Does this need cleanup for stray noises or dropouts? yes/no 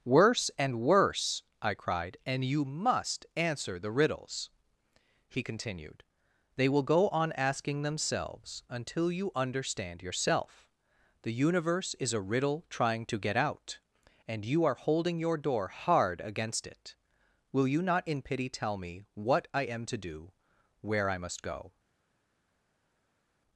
no